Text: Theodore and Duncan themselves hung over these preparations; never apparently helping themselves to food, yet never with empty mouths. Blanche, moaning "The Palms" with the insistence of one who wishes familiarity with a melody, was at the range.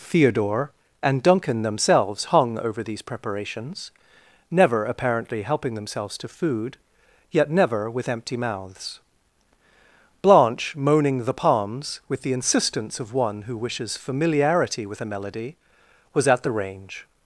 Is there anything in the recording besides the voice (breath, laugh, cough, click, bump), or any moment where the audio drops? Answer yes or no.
no